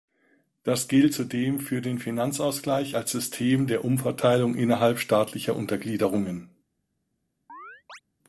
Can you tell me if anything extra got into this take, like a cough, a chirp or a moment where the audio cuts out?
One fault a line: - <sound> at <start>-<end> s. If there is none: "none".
- chirp at 7.5-8.0 s